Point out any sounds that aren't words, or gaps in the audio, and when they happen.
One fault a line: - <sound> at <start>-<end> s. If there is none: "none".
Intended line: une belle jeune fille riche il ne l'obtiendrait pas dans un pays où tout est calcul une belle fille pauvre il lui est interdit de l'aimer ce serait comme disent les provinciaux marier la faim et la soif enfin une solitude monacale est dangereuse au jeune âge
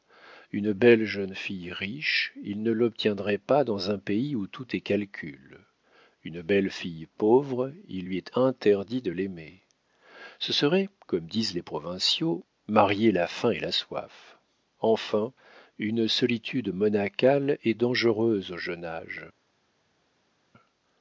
none